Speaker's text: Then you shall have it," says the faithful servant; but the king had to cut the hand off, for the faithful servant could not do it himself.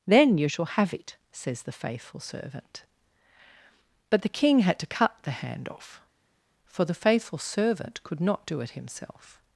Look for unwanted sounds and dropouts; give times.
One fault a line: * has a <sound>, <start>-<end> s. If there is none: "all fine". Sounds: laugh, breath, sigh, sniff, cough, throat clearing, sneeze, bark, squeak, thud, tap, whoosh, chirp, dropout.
all fine